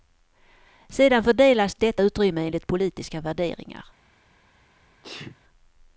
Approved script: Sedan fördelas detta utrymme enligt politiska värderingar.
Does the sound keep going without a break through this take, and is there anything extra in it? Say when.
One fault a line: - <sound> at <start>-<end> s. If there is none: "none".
- sneeze at 5.0-5.4 s